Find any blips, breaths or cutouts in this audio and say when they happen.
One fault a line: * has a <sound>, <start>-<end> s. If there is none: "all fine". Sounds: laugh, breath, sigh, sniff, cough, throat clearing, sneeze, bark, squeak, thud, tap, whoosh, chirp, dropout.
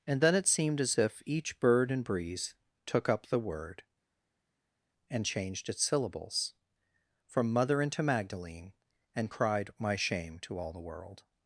all fine